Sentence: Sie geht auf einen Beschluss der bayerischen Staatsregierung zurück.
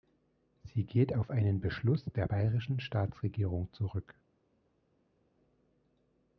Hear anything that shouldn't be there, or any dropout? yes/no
no